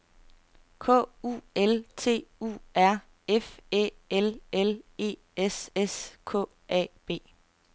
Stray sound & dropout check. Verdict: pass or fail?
pass